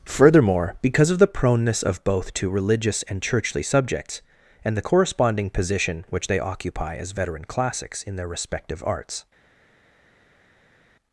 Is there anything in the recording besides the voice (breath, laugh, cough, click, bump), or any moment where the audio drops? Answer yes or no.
no